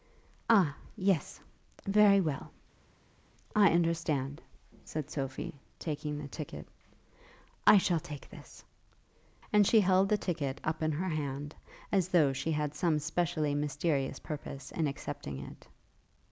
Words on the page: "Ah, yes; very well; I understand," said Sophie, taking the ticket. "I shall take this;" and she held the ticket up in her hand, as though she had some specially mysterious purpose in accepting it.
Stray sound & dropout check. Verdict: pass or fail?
pass